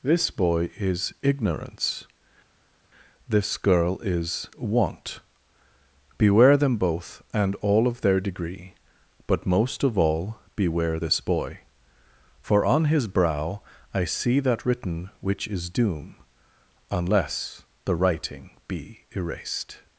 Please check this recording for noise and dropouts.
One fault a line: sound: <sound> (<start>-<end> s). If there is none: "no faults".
no faults